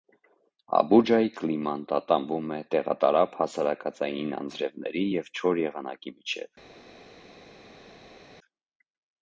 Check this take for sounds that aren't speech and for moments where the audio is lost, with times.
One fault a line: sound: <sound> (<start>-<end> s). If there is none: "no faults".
no faults